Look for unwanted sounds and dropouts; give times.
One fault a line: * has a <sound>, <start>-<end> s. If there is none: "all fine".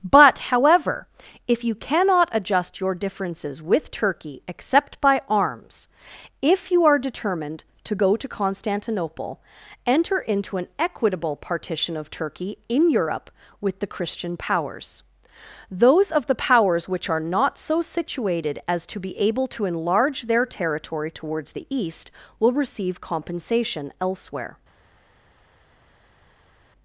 all fine